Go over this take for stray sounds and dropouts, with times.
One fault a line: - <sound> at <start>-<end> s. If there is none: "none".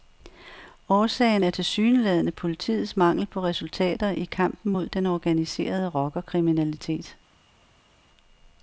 none